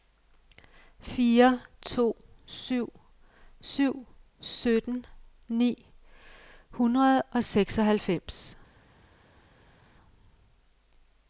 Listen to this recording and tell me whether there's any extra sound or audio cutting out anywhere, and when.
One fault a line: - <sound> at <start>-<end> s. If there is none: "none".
none